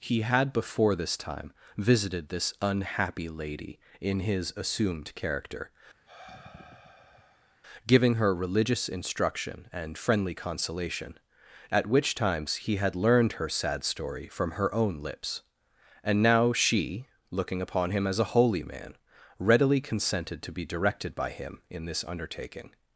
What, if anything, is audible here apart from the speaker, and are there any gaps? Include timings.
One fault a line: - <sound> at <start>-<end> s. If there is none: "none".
- sigh at 6.1-7.6 s